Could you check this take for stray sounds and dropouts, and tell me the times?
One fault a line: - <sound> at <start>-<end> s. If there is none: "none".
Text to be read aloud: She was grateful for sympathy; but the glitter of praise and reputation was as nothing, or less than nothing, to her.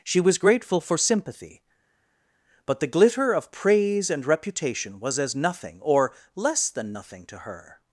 none